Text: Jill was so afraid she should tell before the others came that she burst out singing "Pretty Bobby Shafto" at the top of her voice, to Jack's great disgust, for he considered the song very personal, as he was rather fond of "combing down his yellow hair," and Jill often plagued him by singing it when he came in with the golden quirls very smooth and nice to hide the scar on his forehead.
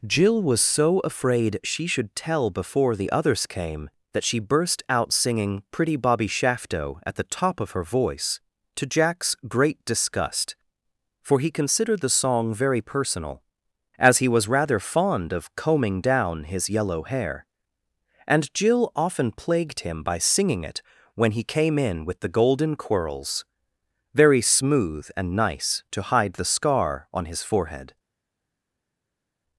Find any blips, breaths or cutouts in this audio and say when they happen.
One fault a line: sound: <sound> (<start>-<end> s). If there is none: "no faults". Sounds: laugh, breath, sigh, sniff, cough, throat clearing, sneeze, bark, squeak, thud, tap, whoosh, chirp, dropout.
no faults